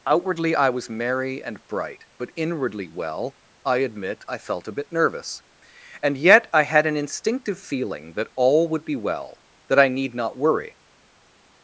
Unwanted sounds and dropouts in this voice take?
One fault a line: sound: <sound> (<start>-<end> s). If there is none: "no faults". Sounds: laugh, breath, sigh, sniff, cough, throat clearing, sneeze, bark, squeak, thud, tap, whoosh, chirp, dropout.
no faults